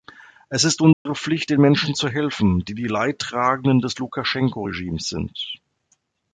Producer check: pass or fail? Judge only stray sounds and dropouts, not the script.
fail